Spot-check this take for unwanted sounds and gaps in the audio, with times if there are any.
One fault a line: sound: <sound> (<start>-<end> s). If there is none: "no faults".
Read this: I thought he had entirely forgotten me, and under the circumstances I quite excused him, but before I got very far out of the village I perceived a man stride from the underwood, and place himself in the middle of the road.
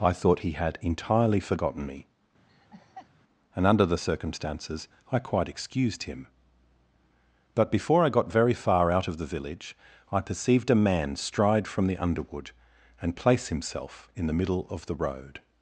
sound: laugh (2.5-3.1 s)